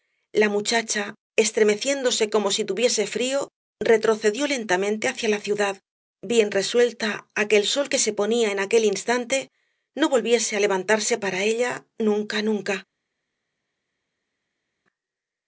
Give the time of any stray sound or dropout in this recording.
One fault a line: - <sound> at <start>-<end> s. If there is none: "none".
none